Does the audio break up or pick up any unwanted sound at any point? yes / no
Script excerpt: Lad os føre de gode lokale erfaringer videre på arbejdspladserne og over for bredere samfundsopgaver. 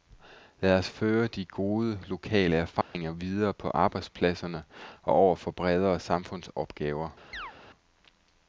yes